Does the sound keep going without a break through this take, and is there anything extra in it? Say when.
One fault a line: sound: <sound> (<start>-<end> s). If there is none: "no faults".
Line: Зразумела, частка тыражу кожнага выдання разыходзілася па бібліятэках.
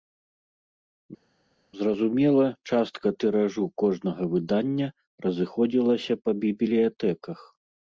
no faults